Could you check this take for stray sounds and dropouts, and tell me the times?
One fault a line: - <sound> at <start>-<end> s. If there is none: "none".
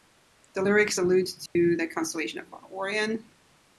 - dropout at 1.5-1.6 s